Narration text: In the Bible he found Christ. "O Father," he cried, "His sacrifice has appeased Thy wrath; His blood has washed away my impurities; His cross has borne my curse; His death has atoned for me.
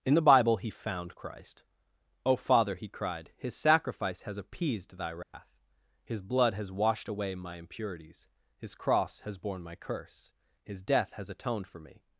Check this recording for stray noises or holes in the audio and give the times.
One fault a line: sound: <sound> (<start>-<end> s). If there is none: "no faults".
sound: dropout (5.2-5.3 s)